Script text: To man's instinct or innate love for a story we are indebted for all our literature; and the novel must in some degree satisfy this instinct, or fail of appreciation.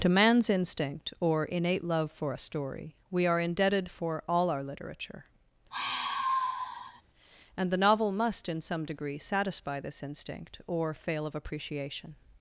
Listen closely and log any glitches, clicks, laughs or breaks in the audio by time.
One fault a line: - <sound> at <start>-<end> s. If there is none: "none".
- sigh at 5.7-7.0 s